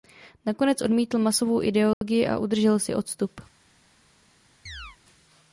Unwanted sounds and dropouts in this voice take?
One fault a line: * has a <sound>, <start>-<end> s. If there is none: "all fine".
* has a dropout, 1.9-2.0 s
* has a chirp, 4.7-5.0 s